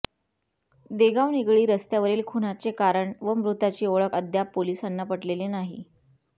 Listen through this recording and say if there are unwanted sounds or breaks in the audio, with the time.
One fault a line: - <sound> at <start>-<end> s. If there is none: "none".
none